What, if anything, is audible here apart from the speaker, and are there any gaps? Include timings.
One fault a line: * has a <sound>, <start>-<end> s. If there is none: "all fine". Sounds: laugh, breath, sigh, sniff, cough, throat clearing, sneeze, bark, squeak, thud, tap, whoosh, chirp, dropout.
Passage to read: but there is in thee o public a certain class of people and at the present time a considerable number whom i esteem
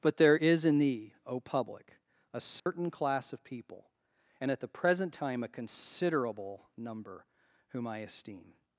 * has a dropout, 2.6-2.7 s